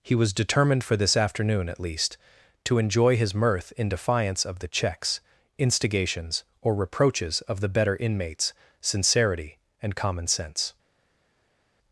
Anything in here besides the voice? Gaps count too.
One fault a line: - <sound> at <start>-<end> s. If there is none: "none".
none